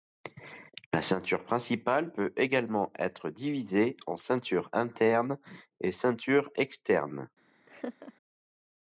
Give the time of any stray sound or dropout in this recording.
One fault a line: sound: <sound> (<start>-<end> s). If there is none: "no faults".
sound: laugh (7.7-8.1 s)